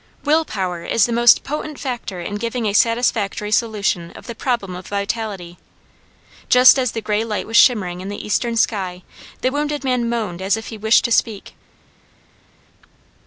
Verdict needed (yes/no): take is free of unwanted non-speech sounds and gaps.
yes